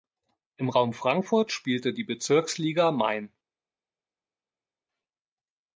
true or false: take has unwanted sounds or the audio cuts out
false